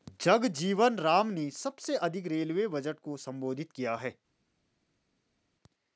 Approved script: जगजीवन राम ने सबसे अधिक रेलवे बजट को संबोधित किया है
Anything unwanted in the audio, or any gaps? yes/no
no